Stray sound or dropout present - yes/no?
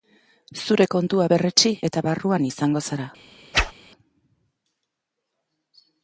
yes